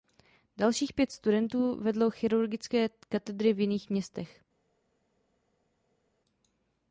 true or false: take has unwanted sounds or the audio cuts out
false